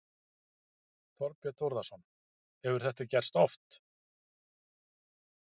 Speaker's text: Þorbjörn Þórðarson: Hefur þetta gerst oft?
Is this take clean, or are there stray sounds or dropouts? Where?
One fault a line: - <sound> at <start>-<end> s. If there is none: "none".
none